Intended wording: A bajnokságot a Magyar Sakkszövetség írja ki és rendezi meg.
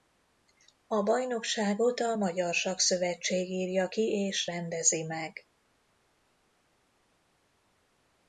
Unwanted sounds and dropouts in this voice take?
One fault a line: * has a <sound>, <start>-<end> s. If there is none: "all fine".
all fine